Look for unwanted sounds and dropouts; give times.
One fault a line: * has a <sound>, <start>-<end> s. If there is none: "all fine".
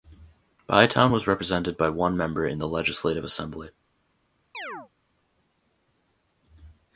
* has a chirp, 4.5-4.9 s